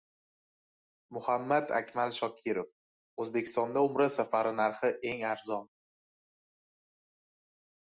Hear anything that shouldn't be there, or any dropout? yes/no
no